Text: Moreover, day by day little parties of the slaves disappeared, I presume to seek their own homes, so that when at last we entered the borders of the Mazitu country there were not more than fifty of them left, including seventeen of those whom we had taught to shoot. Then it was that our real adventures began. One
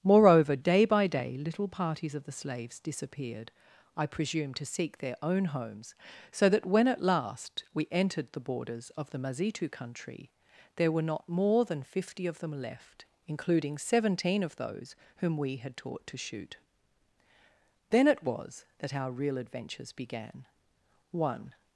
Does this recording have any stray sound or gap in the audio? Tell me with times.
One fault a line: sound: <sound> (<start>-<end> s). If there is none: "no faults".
no faults